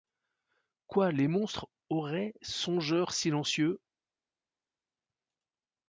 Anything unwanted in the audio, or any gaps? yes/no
no